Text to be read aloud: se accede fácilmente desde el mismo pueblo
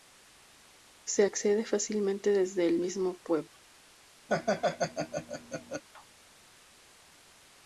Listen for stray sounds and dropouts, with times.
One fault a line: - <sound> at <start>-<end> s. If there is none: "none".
- laugh at 4.3-5.8 s